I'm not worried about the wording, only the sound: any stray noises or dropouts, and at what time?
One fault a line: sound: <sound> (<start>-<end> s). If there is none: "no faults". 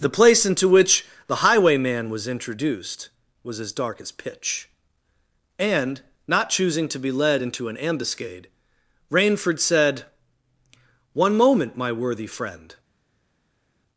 no faults